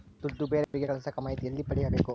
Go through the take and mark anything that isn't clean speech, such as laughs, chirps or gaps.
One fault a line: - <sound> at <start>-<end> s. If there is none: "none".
- dropout at 0.6-0.7 s